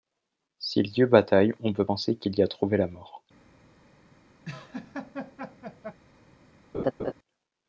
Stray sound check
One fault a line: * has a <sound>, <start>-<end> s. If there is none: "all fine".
* has a laugh, 4.4-6.0 s
* has a laugh, 6.7-7.1 s